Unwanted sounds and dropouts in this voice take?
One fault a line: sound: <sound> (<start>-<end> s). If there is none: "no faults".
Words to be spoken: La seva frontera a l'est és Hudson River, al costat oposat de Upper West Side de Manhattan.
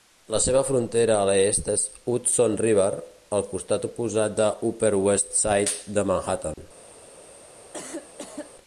sound: dropout (6.5-6.6 s)
sound: cough (7.7-8.5 s)